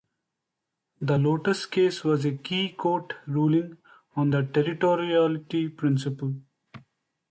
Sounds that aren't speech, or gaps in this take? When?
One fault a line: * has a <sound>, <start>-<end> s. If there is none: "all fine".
all fine